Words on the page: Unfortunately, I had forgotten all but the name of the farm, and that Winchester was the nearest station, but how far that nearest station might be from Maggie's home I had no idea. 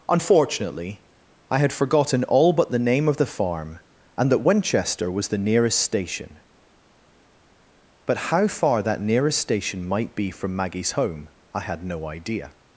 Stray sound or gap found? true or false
false